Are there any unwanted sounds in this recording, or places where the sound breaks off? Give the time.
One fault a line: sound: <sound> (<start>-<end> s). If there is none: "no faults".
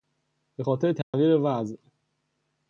sound: dropout (1.0-1.1 s)